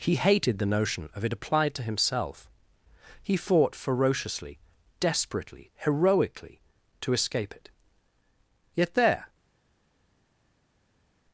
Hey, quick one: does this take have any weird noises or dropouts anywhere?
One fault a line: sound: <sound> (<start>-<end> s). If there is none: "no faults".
no faults